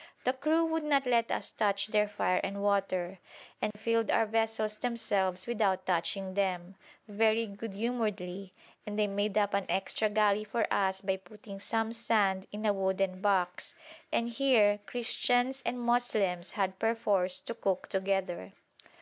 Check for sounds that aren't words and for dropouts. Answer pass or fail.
fail